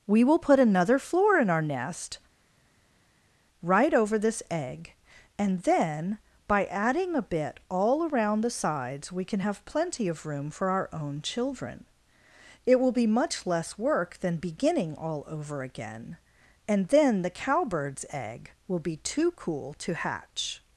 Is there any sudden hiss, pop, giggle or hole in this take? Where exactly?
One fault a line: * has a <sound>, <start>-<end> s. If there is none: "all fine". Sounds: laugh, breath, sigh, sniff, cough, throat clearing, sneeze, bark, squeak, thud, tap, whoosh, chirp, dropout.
all fine